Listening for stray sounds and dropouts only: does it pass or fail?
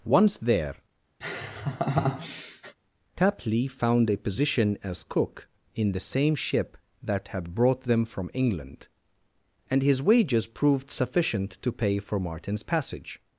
fail